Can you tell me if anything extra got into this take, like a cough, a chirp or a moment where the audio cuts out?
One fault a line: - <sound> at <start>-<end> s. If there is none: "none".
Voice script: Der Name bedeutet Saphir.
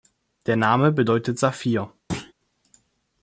- thud at 2.1-2.3 s